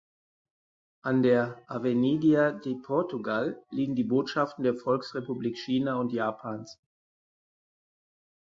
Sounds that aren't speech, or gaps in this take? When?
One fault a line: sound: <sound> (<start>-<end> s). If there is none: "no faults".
no faults